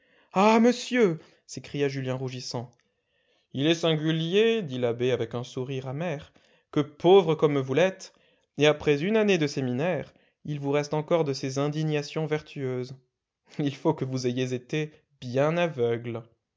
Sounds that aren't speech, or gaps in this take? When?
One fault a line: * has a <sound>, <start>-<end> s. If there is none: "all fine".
all fine